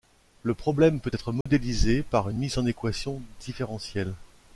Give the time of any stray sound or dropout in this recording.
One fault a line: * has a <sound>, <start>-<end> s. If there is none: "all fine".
* has a dropout, 1.4-1.5 s